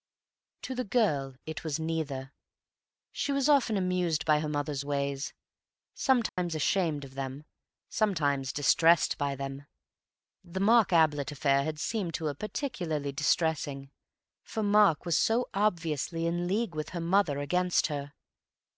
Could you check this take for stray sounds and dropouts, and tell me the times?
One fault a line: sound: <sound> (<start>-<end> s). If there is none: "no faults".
sound: dropout (6.3-6.4 s)